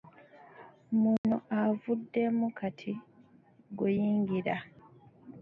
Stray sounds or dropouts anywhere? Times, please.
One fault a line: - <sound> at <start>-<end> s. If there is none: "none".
- dropout at 1.2-1.2 s